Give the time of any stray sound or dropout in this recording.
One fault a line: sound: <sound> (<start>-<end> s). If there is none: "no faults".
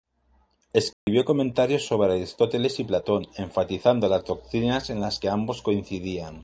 sound: dropout (0.9-1.1 s)